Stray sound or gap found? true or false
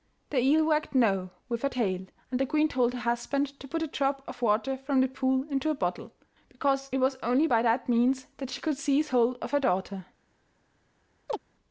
true